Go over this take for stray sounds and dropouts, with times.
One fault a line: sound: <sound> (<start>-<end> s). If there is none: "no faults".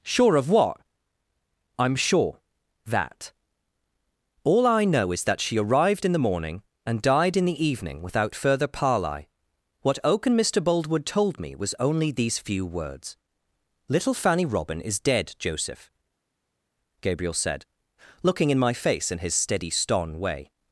no faults